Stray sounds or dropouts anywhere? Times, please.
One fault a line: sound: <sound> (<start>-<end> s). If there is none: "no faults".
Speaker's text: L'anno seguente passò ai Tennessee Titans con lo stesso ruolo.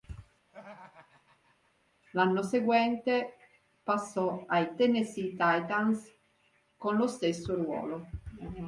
sound: laugh (0.5-1.7 s)